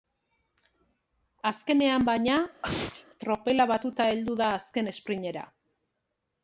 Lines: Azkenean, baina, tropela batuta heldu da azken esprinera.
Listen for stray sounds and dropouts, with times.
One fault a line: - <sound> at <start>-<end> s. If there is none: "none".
- sneeze at 2.6-3.0 s